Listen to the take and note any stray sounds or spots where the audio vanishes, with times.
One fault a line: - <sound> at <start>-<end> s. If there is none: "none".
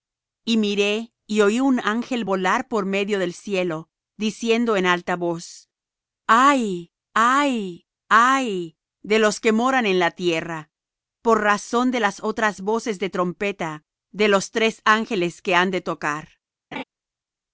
- laugh at 16.7-16.8 s